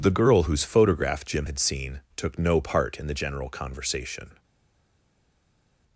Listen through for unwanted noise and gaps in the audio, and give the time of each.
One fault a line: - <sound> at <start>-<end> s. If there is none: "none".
none